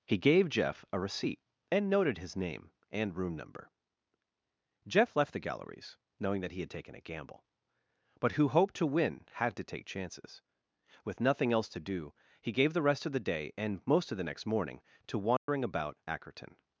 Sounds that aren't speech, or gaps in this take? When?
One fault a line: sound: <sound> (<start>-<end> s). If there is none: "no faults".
sound: dropout (15.4-15.5 s)